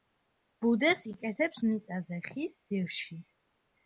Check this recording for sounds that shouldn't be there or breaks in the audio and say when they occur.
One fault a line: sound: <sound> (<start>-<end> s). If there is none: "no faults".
no faults